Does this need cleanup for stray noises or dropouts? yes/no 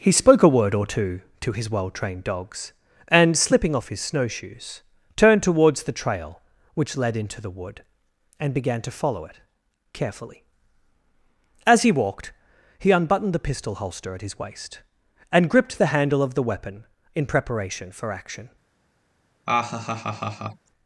yes